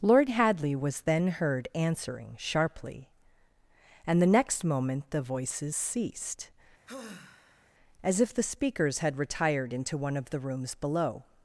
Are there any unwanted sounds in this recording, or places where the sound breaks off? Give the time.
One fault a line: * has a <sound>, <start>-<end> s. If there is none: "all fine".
* has a sigh, 6.9-7.7 s